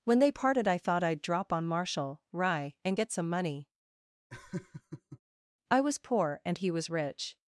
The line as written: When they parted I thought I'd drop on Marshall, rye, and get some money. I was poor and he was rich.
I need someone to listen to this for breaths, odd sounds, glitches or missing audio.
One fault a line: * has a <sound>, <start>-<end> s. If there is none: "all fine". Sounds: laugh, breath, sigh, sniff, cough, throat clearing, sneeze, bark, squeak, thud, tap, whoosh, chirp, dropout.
* has a laugh, 4.3-5.2 s